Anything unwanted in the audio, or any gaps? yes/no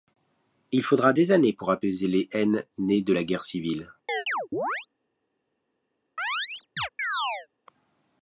yes